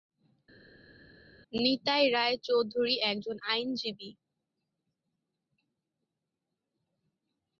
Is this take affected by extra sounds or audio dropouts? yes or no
no